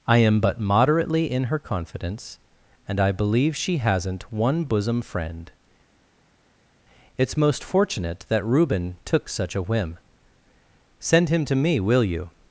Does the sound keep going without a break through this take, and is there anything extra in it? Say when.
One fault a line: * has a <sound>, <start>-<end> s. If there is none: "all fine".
all fine